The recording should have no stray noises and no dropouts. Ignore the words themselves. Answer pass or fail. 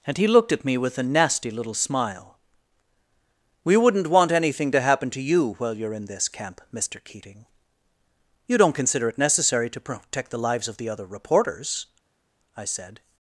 pass